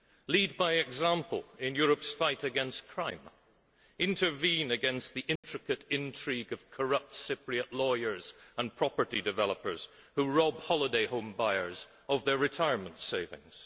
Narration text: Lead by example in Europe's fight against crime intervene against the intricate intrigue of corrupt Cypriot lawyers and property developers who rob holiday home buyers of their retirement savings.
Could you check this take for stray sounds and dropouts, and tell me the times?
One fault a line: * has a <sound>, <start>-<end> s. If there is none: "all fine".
* has a dropout, 5.4-5.4 s